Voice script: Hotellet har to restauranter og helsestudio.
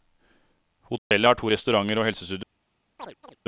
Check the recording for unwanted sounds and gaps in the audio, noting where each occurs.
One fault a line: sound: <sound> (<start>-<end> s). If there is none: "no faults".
sound: dropout (1.0-1.1 s)
sound: chirp (3.0-3.4 s)